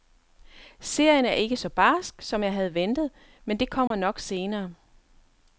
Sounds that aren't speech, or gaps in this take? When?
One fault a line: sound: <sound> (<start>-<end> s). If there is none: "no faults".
sound: dropout (3.9-3.9 s)